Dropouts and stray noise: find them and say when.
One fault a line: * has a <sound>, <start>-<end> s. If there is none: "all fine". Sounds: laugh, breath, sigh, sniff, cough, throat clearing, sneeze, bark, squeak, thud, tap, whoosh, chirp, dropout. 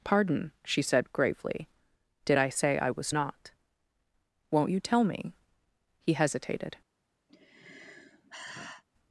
* has a sigh, 7.3-8.8 s